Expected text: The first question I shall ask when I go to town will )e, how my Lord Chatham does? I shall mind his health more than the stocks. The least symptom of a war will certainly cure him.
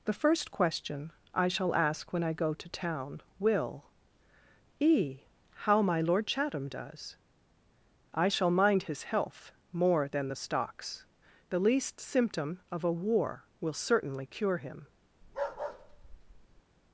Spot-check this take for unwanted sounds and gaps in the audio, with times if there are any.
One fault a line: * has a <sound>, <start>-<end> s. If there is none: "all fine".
* has a bark, 15.2-16.6 s